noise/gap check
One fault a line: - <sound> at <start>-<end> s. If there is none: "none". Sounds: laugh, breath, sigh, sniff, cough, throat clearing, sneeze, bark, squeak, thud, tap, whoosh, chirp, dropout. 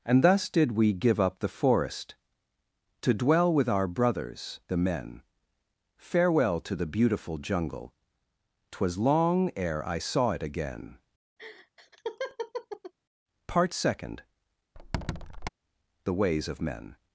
- laugh at 11.4-12.9 s
- squeak at 14.8-15.5 s